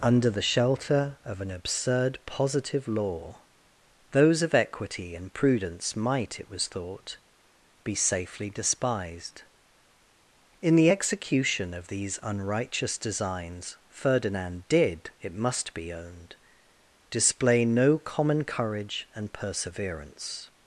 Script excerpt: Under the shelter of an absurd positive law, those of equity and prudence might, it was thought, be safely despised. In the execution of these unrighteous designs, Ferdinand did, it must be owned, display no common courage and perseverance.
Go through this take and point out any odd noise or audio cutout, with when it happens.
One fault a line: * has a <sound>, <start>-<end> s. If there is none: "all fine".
all fine